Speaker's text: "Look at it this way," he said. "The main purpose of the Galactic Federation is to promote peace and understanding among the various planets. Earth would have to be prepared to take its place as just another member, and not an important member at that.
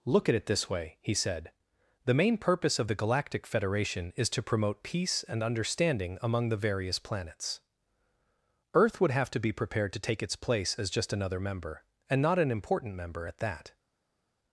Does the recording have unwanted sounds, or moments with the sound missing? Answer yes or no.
no